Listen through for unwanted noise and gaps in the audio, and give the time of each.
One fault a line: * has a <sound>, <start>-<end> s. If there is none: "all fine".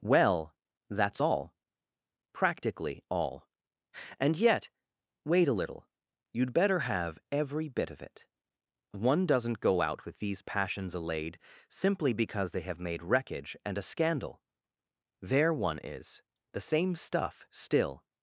all fine